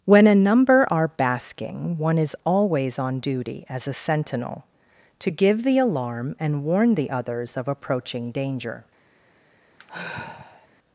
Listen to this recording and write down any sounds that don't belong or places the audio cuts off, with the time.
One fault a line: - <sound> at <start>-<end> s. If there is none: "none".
- sigh at 9.8-10.7 s